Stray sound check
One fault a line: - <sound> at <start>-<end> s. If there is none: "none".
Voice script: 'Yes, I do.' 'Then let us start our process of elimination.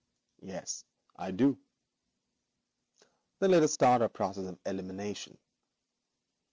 none